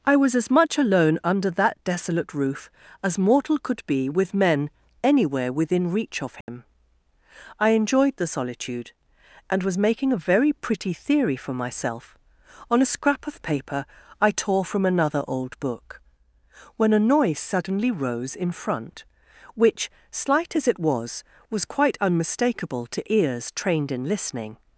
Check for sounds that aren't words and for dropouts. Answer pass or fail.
fail